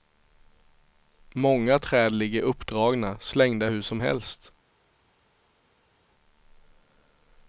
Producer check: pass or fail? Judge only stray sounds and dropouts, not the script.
pass